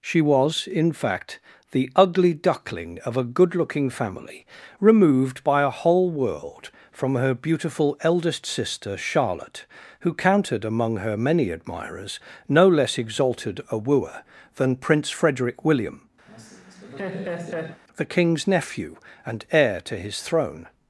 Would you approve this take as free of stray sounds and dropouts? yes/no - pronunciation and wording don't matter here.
no